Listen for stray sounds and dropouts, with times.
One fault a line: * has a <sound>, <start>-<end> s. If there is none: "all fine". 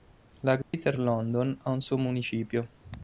* has a dropout, 0.6-0.7 s